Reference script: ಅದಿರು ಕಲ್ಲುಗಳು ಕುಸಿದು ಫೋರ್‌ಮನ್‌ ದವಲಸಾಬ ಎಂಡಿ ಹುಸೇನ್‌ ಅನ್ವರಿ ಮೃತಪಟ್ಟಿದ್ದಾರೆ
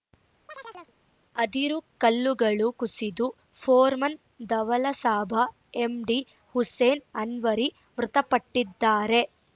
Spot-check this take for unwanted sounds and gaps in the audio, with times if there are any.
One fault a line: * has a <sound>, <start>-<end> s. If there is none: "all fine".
* has a chirp, 0.5-0.9 s